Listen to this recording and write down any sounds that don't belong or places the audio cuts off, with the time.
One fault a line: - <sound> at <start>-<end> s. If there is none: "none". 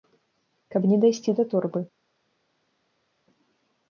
none